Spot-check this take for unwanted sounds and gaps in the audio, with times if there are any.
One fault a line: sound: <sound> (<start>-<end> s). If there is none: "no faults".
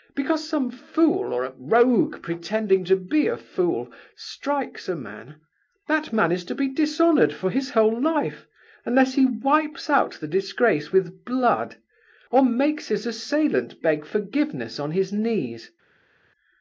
no faults